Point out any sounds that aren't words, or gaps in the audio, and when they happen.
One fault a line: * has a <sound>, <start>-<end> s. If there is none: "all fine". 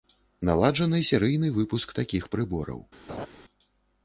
* has a laugh, 3.1-3.3 s